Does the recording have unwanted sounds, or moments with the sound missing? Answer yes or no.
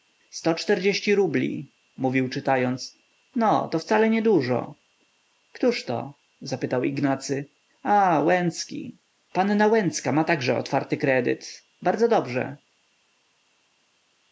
no